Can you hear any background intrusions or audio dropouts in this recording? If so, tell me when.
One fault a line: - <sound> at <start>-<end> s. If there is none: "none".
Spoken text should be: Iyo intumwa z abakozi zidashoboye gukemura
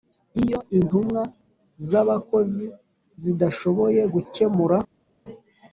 none